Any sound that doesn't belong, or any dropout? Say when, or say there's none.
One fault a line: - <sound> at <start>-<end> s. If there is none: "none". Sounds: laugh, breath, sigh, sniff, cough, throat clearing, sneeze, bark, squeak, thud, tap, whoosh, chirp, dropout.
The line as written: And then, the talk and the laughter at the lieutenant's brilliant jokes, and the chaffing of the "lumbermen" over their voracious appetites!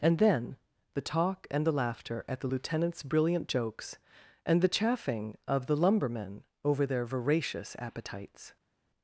none